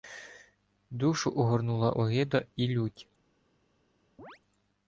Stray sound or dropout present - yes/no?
yes